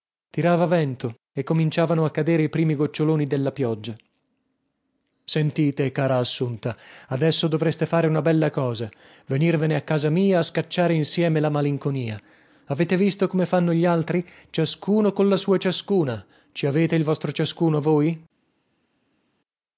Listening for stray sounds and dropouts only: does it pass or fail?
pass